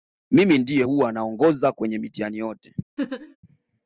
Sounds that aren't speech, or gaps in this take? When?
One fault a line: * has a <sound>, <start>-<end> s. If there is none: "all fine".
* has a laugh, 3.0-3.4 s